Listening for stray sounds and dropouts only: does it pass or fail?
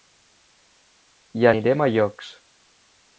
pass